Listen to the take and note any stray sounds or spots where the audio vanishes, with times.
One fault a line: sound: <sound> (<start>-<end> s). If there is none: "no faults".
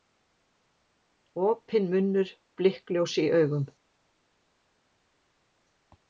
no faults